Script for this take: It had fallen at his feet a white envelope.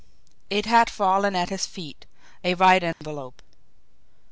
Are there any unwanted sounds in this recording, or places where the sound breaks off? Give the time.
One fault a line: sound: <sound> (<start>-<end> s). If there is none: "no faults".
sound: dropout (2.9-3.0 s)